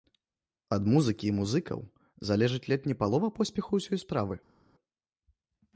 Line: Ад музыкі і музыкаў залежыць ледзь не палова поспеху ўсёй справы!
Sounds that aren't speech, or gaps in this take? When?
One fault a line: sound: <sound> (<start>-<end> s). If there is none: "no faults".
no faults